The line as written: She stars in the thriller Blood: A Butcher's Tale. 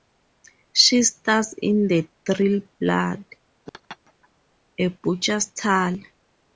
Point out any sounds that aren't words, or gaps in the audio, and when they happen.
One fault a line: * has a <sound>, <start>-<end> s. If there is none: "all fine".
* has a laugh, 3.7-4.3 s